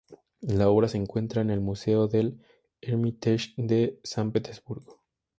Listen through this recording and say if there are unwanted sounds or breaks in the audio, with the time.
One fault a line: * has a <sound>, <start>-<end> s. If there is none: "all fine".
all fine